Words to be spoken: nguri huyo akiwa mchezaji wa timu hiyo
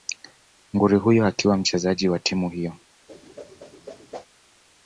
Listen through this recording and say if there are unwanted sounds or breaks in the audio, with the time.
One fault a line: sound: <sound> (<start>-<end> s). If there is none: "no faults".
sound: whoosh (3.1-4.3 s)